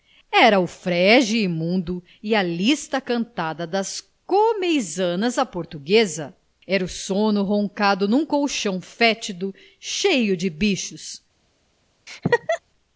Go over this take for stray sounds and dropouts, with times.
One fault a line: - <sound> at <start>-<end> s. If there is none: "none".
- laugh at 12.1-12.6 s